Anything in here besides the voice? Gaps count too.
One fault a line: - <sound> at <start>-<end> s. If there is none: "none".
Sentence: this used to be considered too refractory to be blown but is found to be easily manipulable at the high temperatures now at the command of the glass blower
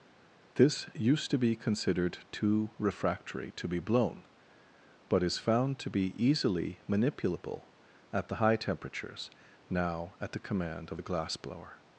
none